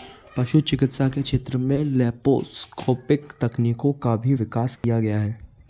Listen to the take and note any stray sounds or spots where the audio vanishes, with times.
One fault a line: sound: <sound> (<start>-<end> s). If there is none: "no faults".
sound: dropout (4.8-4.8 s)